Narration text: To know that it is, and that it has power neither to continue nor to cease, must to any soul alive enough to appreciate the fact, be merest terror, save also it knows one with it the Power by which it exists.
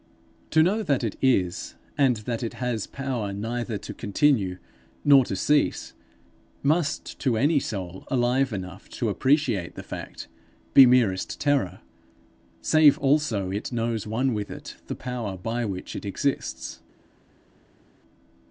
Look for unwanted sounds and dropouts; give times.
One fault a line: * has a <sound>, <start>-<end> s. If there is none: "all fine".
all fine